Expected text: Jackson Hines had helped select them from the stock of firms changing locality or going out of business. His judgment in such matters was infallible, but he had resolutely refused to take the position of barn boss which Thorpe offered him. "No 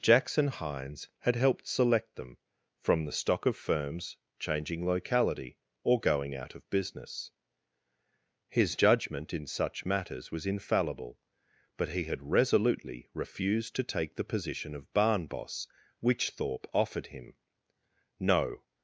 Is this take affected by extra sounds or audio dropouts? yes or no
no